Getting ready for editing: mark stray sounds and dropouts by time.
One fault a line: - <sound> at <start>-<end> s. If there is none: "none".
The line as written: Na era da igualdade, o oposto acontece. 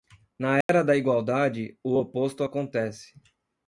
- dropout at 0.6-0.7 s